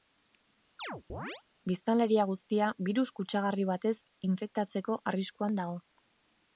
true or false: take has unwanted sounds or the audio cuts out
true